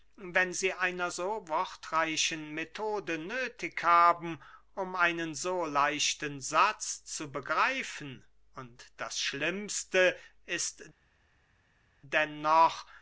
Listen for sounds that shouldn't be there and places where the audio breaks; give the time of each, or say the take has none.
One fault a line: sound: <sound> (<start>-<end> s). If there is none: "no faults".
no faults